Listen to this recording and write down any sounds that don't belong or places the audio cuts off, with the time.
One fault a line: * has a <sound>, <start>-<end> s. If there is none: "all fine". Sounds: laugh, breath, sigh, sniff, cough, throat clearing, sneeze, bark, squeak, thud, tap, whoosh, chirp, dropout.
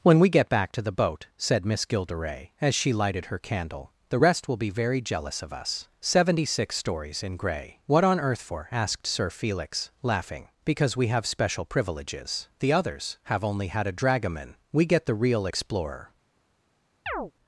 * has a chirp, 17.1-17.3 s